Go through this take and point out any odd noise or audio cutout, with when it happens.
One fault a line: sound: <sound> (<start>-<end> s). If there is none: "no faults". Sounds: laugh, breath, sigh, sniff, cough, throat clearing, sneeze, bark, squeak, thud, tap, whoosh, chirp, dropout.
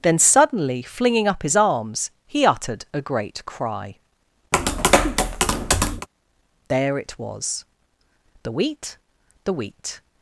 sound: tap (4.5-6.1 s)